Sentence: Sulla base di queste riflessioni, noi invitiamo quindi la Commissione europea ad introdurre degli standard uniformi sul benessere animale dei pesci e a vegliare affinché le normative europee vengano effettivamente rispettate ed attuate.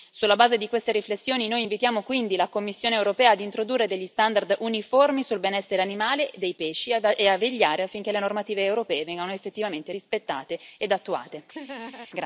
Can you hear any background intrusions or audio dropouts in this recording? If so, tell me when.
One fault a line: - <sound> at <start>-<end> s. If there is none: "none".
- laugh at 11.5-12.1 s